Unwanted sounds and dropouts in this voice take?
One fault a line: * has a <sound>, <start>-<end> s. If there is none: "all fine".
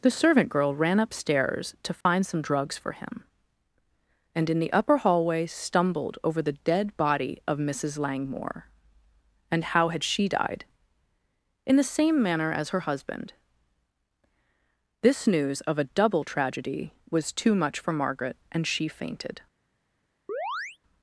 * has a dropout, 2.0-2.1 s
* has a chirp, 20.3-20.8 s